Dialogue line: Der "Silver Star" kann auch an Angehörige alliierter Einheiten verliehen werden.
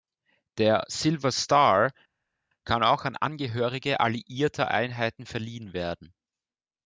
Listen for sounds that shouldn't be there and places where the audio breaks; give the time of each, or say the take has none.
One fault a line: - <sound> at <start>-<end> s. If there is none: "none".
none